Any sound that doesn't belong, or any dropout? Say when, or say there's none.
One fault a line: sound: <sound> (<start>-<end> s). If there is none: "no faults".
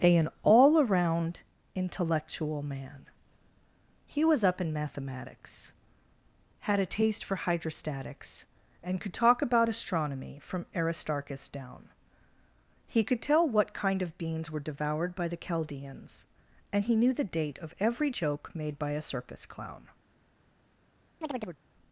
sound: chirp (21.2-21.6 s)